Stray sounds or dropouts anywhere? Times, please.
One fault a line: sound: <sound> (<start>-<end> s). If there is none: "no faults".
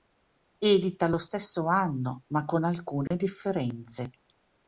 sound: dropout (3.1-3.1 s)